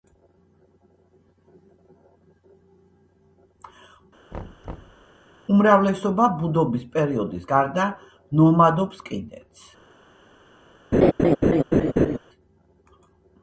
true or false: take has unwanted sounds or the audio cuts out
true